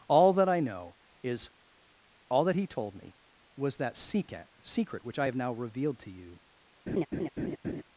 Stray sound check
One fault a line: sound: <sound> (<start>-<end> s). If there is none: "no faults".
sound: laugh (6.9-7.8 s)